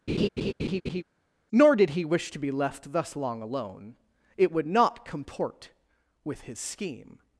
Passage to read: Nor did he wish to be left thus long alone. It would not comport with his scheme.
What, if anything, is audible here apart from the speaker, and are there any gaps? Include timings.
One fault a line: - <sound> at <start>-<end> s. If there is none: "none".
- laugh at 0.1-1.0 s